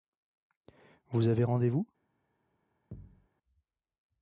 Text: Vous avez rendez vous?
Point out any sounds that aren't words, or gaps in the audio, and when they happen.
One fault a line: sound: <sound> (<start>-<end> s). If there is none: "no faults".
sound: thud (2.9-3.3 s)